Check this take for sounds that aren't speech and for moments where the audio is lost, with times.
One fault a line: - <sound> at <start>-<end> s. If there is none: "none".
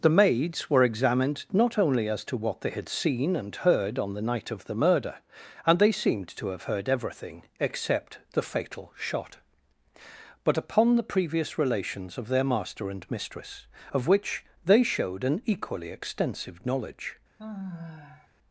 - sigh at 17.4-18.3 s